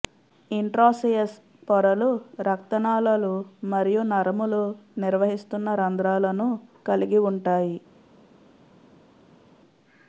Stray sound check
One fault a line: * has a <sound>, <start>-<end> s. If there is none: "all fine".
all fine